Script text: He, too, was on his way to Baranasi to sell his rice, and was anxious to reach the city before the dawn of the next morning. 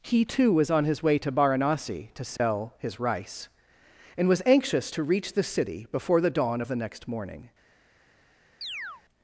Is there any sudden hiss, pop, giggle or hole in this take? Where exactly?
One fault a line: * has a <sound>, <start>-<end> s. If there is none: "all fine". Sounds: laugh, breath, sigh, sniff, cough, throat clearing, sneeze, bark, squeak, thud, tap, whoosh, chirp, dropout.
* has a dropout, 2.4-2.4 s
* has a chirp, 8.6-9.0 s